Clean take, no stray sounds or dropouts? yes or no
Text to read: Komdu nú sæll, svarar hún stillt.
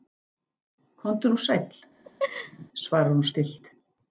no